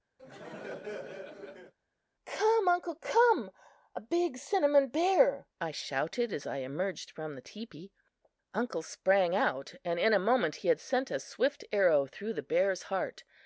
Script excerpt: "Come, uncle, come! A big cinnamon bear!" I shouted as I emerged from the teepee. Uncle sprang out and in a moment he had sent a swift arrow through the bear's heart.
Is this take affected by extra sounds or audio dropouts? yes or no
yes